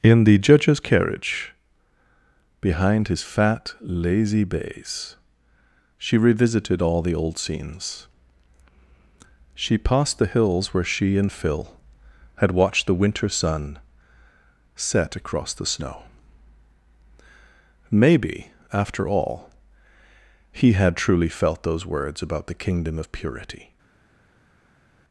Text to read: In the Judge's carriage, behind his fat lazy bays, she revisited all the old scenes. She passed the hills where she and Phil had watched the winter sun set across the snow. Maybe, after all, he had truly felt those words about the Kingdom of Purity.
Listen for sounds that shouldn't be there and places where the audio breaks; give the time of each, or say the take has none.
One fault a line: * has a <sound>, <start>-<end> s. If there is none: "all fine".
all fine